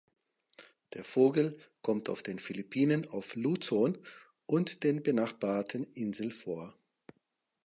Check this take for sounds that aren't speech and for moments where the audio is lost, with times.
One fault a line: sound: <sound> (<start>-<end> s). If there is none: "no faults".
no faults